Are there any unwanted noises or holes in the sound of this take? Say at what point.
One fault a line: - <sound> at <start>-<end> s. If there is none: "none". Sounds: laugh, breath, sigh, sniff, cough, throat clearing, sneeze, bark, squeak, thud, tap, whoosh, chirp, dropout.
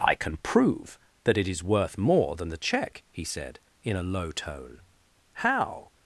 none